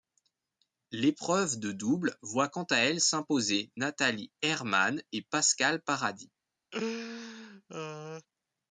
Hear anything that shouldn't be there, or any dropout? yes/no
yes